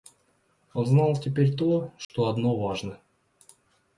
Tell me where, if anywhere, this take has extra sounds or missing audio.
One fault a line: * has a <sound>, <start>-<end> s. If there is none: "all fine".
* has a dropout, 2.0-2.1 s